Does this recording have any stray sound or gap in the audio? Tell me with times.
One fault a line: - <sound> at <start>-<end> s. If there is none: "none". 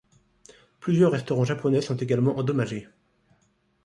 none